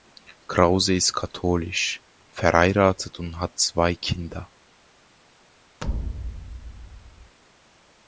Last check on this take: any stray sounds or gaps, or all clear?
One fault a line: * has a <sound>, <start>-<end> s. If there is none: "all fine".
* has a thud, 5.8-7.4 s